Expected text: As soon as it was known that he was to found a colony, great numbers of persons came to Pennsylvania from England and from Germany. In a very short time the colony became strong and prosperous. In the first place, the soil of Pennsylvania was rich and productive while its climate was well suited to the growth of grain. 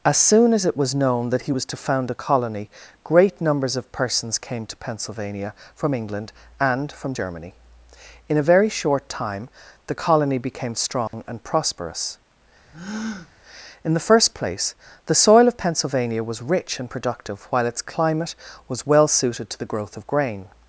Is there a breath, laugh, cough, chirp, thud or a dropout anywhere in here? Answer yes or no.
yes